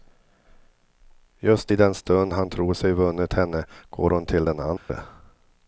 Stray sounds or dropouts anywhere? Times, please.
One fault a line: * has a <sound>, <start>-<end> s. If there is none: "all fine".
* has a dropout, 4.8-4.9 s